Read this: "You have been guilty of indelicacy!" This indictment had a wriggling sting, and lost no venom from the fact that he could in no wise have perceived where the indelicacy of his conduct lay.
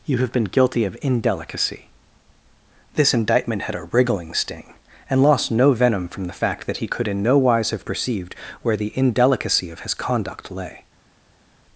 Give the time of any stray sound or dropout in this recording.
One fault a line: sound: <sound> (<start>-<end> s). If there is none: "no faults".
no faults